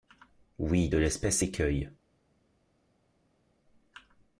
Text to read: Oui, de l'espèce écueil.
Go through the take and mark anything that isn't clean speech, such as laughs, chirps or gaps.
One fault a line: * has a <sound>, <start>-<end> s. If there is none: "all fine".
all fine